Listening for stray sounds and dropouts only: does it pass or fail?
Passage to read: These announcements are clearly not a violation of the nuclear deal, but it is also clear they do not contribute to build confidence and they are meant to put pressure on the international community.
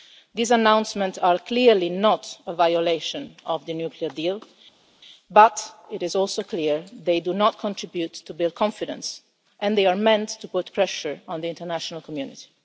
pass